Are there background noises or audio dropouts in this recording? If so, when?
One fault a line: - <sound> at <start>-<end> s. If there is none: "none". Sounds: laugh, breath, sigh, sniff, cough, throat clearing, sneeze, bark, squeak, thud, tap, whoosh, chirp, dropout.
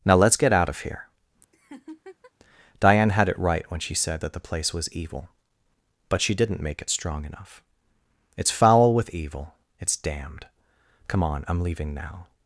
- laugh at 1.5-2.3 s